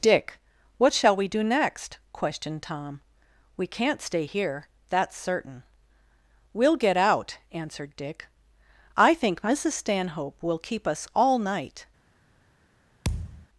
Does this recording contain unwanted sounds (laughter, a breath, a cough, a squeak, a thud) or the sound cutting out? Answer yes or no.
yes